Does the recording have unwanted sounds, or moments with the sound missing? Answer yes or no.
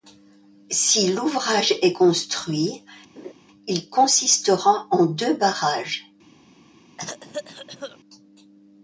yes